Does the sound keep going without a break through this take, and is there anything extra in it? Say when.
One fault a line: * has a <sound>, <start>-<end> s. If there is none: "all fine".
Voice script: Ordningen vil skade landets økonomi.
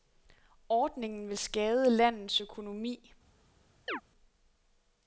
* has a chirp, 3.9-4.0 s